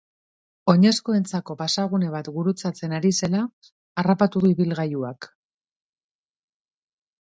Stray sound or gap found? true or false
false